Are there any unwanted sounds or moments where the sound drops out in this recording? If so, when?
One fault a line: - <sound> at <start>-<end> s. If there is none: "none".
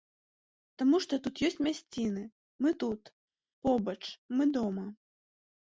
none